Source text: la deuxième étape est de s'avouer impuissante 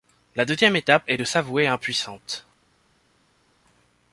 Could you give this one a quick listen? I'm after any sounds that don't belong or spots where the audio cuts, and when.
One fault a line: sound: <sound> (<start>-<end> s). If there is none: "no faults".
no faults